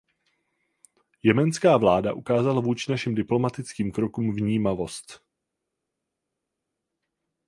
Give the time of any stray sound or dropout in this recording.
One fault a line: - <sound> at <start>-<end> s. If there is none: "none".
none